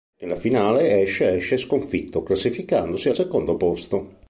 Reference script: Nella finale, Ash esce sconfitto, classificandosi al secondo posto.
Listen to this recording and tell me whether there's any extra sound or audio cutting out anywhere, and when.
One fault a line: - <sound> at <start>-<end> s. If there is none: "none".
none